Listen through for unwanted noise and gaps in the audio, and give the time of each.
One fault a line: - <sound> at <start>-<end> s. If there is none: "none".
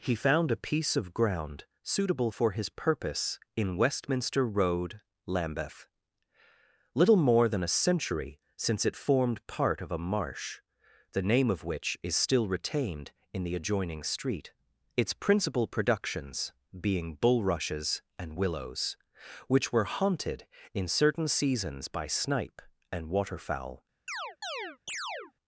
- chirp at 24.1-25.3 s